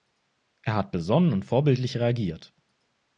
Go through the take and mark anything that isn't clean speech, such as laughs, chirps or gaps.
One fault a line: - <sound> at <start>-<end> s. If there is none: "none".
none